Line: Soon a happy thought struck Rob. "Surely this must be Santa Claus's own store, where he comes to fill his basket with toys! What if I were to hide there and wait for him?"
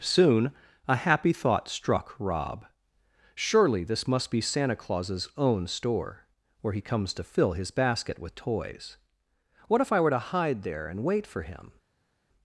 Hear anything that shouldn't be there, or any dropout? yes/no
no